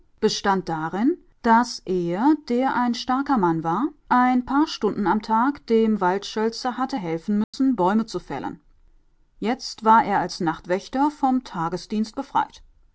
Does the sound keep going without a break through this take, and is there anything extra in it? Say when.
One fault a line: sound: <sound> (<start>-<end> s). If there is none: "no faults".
sound: dropout (7.4-7.5 s)